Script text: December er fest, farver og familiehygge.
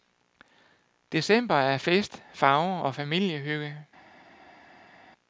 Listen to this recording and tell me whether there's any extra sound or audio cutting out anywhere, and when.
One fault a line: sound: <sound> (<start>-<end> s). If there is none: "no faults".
no faults